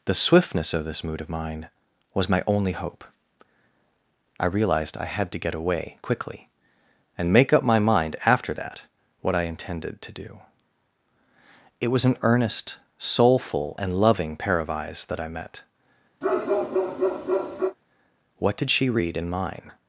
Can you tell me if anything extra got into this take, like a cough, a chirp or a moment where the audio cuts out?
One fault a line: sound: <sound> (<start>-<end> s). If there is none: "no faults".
sound: bark (16.2-17.8 s)